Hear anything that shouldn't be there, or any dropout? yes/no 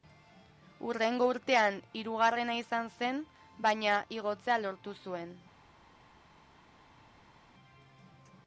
no